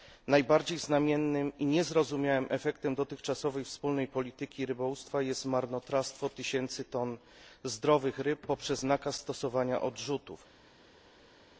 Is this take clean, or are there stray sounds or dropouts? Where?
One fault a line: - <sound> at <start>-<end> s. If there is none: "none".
none